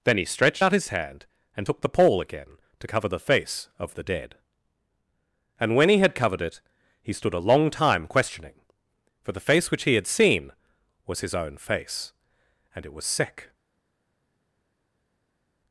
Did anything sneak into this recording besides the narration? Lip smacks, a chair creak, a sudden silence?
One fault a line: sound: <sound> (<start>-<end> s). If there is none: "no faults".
no faults